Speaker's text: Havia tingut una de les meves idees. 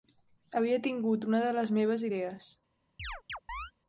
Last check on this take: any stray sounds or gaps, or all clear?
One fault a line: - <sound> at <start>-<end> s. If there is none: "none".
- chirp at 3.0-3.7 s